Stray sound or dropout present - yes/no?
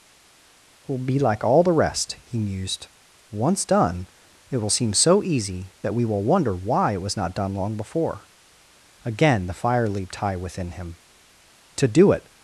no